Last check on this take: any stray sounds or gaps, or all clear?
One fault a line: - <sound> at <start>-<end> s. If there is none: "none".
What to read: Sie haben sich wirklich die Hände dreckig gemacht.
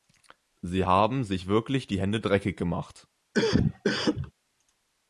- cough at 3.3-4.3 s